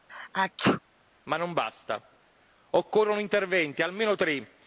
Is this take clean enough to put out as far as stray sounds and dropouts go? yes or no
no